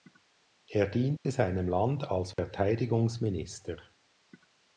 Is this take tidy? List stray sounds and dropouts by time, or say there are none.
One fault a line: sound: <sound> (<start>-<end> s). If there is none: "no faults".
sound: dropout (1.2-1.3 s)
sound: dropout (2.3-2.4 s)